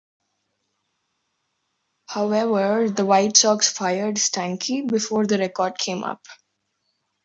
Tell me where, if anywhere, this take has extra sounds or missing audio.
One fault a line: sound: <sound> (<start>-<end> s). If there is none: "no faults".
no faults